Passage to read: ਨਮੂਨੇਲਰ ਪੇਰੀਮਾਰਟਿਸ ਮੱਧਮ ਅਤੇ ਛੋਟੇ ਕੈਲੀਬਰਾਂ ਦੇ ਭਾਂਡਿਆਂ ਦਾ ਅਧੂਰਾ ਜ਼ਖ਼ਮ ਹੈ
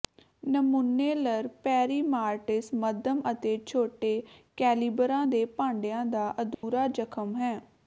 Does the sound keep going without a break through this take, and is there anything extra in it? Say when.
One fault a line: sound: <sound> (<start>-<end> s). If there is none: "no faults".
sound: dropout (6.5-6.6 s)